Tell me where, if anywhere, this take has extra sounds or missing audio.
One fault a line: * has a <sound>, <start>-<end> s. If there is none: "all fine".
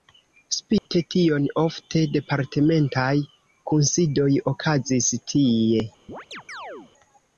* has a dropout, 0.8-0.9 s
* has a chirp, 6.1-6.9 s